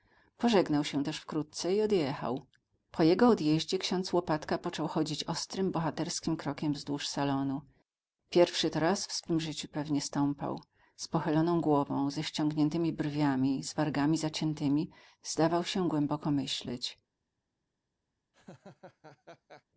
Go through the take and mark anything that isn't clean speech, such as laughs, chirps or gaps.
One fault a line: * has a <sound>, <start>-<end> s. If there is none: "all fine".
* has a laugh, 18.3-19.6 s